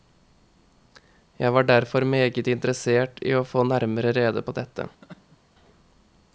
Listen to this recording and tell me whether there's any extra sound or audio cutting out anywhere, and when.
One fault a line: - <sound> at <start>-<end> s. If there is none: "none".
- laugh at 5.0-5.4 s